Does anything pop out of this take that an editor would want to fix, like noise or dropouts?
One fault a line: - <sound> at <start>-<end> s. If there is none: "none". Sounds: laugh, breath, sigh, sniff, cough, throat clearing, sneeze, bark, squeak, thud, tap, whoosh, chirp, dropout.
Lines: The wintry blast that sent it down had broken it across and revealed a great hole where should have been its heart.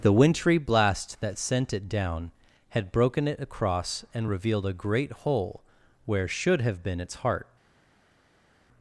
none